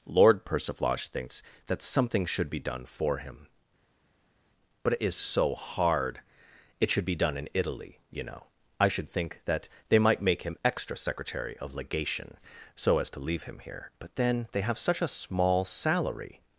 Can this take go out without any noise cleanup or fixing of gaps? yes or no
yes